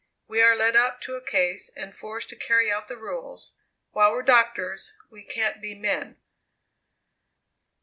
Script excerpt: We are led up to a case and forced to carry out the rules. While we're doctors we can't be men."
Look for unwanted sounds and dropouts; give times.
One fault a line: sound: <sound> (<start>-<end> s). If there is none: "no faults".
no faults